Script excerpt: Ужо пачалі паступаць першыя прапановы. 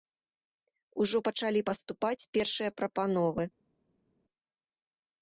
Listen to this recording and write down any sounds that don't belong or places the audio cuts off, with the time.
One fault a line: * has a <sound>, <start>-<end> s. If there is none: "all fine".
all fine